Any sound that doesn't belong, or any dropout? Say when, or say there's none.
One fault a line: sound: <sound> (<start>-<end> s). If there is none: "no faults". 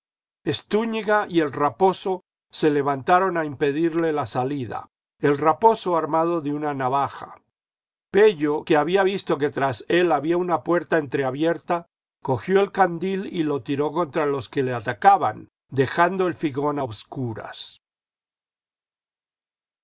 no faults